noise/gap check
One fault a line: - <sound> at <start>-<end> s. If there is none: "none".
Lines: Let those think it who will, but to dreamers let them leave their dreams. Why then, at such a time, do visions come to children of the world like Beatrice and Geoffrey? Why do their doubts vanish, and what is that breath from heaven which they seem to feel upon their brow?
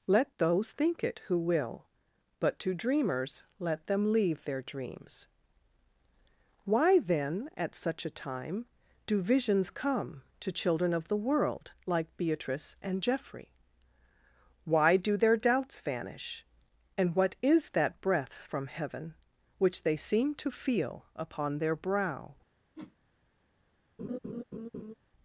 - whoosh at 22.8-23.0 s
- laugh at 24.0-24.9 s